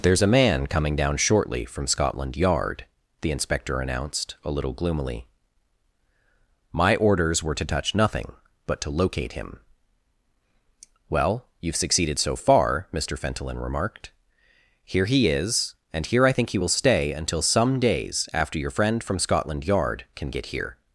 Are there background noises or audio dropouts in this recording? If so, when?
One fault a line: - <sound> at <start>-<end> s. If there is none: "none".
none